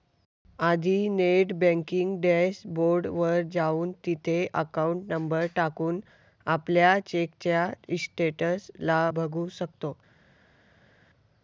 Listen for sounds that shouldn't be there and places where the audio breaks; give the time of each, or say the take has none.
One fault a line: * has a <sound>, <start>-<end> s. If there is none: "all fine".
all fine